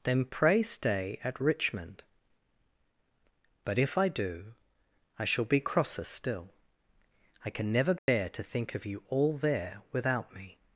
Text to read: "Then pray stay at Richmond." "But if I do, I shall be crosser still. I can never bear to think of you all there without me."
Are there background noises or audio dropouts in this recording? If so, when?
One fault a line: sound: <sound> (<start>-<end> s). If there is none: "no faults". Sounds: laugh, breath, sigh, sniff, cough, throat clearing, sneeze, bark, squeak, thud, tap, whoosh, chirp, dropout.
sound: dropout (8.0-8.1 s)